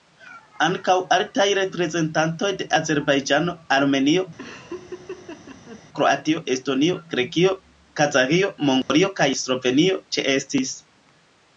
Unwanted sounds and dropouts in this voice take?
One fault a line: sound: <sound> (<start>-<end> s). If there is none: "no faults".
sound: laugh (4.4-5.8 s)
sound: dropout (8.8-8.9 s)